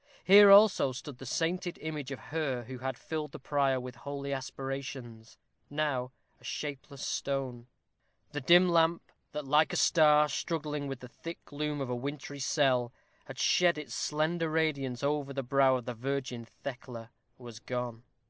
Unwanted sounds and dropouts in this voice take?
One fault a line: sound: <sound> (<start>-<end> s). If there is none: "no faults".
no faults